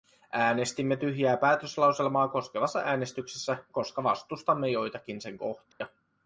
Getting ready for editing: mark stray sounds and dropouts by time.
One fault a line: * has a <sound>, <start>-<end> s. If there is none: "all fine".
* has a dropout, 5.7-5.8 s